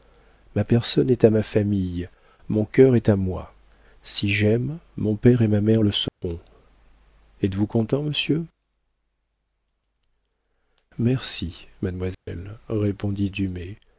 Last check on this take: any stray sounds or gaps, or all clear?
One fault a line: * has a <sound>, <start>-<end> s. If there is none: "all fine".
* has a dropout, 6.1-6.2 s
* has a dropout, 12.1-12.3 s